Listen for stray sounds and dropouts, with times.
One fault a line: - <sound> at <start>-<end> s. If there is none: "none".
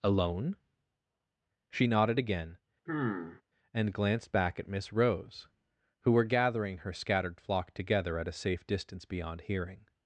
- sigh at 2.9-3.4 s